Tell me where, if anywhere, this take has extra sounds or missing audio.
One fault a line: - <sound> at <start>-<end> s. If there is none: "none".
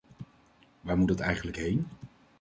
none